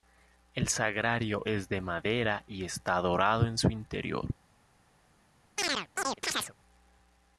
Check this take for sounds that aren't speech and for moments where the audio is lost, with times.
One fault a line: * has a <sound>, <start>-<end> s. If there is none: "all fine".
* has a chirp, 5.6-6.5 s